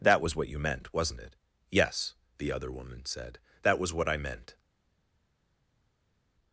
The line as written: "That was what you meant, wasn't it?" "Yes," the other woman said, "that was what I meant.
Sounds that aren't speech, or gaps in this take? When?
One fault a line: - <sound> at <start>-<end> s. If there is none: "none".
none